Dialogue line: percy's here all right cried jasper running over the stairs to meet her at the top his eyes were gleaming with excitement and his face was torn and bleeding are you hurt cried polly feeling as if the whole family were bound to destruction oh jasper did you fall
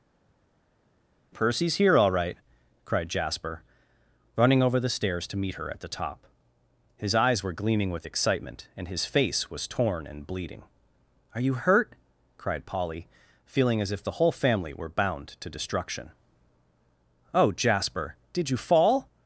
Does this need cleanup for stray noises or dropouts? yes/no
no